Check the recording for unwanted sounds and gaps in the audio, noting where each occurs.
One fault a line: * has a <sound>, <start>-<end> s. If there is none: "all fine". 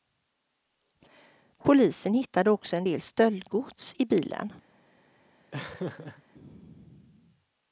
* has a laugh, 5.5-6.2 s